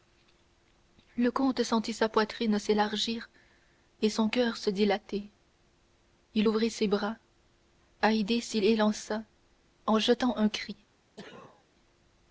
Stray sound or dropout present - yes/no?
yes